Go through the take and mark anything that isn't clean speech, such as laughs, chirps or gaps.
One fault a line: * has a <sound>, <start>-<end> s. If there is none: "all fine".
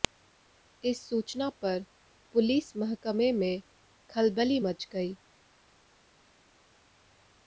all fine